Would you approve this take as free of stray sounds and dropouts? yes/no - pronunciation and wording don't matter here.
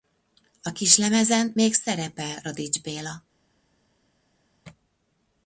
yes